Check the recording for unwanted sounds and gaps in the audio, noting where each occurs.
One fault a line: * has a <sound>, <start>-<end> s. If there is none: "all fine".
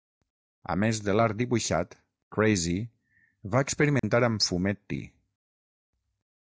* has a dropout, 4.0-4.0 s